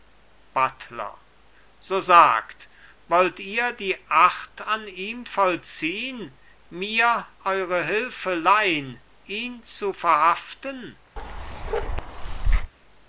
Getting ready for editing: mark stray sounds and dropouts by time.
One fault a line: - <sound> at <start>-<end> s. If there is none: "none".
- bark at 11.2-12.7 s